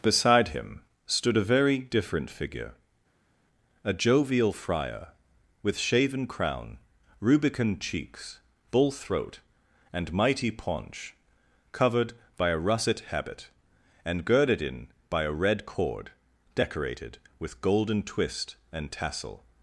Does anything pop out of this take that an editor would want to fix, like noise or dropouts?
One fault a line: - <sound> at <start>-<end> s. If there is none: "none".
none